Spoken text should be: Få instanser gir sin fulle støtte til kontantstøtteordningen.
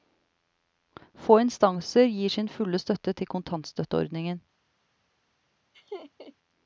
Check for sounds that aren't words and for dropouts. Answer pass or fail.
fail